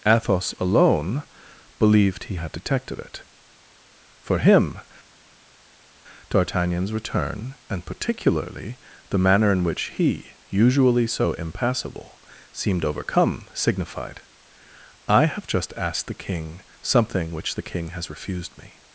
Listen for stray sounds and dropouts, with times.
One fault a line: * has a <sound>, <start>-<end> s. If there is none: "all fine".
all fine